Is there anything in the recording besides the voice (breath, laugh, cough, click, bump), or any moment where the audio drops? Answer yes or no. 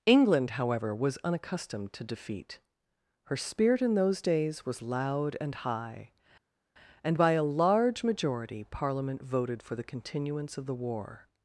no